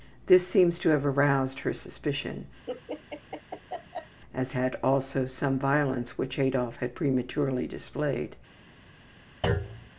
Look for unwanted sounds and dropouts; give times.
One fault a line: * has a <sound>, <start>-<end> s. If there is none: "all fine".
* has a laugh, 2.7-4.2 s
* has a thud, 9.4-9.9 s